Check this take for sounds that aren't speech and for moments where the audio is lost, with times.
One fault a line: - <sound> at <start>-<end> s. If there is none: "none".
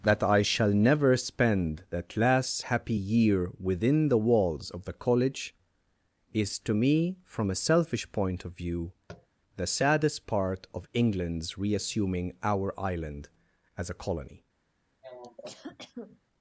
- tap at 9.1-9.3 s
- cough at 15.0-16.2 s